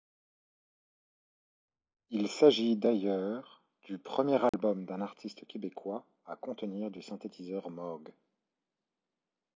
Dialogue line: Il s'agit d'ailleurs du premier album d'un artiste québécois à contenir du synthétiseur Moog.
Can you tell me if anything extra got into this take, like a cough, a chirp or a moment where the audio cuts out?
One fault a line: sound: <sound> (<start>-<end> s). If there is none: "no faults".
sound: dropout (4.5-4.5 s)